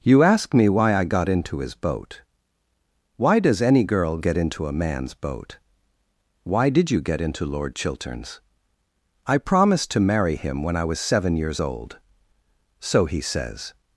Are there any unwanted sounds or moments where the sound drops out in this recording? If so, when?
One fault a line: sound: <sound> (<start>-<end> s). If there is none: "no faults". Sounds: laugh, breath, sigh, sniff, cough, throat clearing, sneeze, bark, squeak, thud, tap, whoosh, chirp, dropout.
no faults